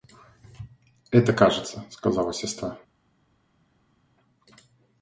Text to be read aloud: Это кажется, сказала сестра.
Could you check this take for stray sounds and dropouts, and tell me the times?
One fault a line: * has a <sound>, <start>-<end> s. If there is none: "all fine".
all fine